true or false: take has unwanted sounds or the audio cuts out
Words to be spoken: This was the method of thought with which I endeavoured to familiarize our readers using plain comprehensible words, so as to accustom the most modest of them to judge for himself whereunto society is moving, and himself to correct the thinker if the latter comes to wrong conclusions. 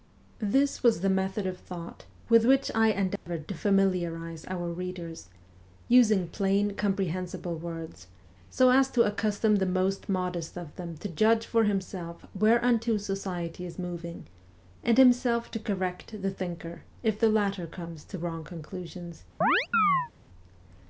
true